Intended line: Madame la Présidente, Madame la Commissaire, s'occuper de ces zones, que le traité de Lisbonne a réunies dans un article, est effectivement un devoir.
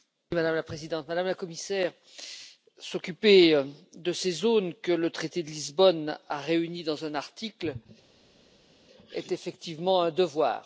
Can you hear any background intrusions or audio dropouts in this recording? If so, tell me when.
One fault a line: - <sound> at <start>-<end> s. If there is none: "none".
none